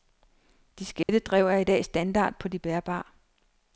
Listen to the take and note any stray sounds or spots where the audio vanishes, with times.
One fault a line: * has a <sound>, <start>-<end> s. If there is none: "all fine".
* has a dropout, 1.0-1.1 s